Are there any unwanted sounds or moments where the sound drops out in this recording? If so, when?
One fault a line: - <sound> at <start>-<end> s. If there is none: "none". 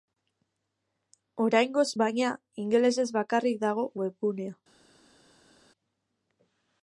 none